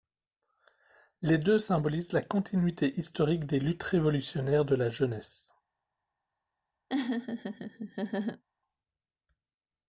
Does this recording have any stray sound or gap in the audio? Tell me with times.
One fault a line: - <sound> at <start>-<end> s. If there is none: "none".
- laugh at 6.9-8.4 s